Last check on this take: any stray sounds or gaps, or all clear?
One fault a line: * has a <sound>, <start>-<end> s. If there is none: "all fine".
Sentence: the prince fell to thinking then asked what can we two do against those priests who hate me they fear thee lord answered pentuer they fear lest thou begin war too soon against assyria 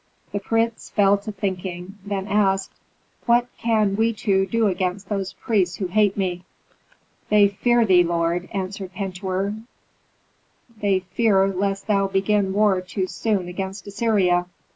all fine